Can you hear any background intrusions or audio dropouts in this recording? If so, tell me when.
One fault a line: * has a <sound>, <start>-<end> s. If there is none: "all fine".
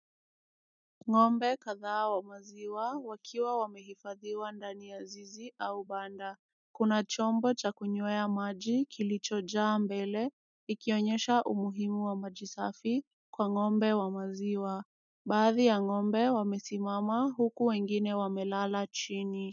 all fine